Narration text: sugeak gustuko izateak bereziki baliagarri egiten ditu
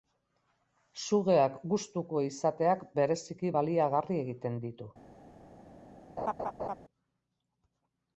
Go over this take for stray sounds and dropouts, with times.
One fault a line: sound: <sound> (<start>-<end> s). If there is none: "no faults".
sound: laugh (6.2-6.8 s)